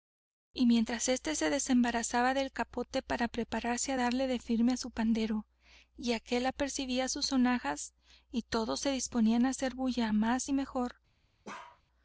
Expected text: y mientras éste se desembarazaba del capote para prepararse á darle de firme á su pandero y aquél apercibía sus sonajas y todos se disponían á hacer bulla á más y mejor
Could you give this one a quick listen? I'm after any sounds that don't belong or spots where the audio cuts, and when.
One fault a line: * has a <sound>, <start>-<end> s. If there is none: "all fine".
* has a bark, 11.4-11.8 s